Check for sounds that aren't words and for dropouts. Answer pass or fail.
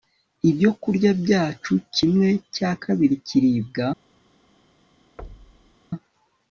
fail